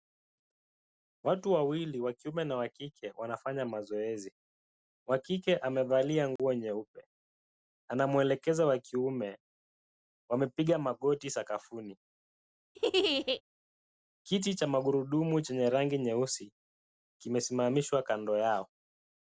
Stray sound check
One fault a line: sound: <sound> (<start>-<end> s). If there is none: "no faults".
sound: dropout (6.4-6.4 s)
sound: laugh (12.7-13.4 s)